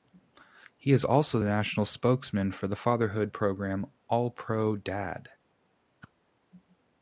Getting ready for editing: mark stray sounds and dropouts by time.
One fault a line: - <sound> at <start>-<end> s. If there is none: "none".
- whoosh at 6.0-6.1 s